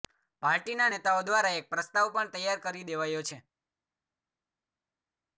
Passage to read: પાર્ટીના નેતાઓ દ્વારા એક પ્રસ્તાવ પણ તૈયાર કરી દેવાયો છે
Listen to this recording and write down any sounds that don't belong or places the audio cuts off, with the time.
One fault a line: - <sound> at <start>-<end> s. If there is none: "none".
none